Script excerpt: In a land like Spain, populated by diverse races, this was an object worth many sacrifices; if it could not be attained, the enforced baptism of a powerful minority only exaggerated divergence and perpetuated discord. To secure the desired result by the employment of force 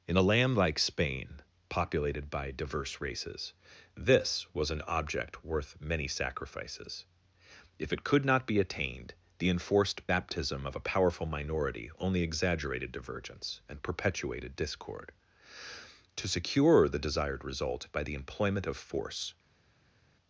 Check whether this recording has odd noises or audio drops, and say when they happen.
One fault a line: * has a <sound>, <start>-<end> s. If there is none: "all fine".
all fine